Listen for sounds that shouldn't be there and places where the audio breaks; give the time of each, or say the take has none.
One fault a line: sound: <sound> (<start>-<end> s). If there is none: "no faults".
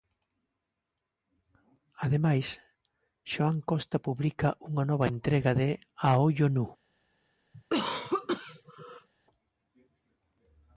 sound: cough (7.5-9.1 s)